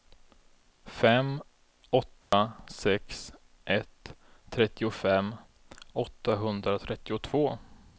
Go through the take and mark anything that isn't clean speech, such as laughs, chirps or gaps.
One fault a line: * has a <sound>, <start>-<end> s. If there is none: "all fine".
* has a dropout, 2.2-2.3 s